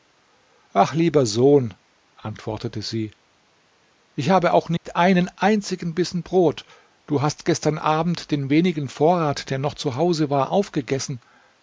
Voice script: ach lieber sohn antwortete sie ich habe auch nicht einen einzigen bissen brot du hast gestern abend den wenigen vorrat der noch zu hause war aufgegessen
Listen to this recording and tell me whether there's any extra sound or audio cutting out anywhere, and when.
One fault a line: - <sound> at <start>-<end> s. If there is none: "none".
- dropout at 4.8-4.9 s